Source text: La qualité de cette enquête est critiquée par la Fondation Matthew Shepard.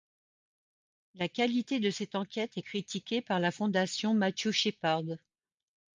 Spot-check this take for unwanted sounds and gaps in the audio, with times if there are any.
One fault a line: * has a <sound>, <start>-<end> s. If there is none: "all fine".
all fine